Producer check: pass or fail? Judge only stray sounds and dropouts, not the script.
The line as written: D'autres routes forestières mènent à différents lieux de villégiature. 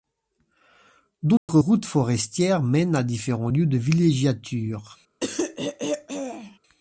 fail